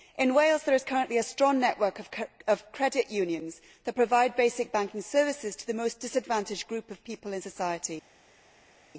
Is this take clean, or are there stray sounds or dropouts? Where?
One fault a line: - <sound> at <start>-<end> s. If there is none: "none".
none